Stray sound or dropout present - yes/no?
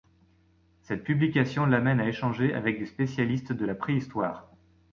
no